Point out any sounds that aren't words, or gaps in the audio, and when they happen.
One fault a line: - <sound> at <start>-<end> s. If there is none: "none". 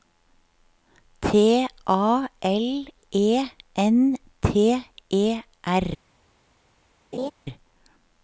- laugh at 7.1-7.3 s